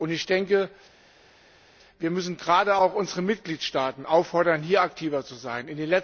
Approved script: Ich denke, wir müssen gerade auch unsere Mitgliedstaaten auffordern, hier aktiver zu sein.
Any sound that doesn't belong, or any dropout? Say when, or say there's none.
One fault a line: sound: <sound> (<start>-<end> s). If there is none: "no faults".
no faults